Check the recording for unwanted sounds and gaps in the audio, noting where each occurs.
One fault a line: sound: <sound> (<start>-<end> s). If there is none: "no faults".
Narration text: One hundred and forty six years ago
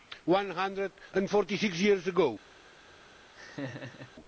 sound: laugh (3.3-4.1 s)